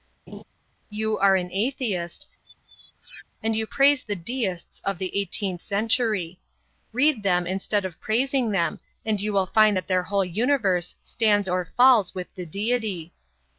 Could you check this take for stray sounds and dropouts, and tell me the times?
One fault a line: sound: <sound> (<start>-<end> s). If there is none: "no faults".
sound: laugh (0.3-0.4 s)
sound: squeak (2.4-3.3 s)